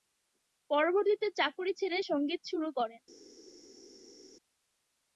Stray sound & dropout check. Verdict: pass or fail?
pass